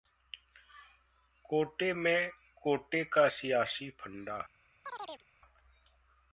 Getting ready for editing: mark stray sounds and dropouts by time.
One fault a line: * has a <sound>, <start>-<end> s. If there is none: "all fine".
* has a chirp, 4.8-5.2 s